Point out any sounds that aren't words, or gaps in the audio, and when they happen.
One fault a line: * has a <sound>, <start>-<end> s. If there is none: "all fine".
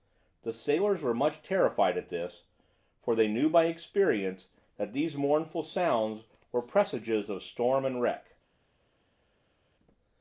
all fine